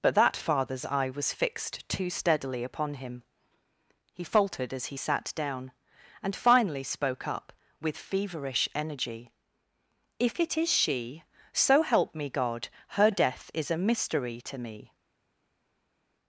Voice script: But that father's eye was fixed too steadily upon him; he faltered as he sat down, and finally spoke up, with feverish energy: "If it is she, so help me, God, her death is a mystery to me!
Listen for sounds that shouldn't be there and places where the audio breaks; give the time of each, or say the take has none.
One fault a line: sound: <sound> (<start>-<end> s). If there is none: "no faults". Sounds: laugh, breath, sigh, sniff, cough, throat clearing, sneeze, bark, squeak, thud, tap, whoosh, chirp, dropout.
no faults